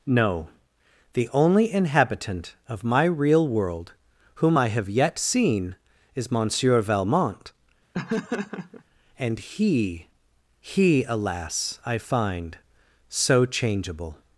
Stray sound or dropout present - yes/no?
yes